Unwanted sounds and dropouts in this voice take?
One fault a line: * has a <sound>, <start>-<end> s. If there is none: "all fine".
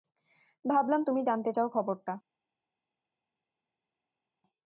all fine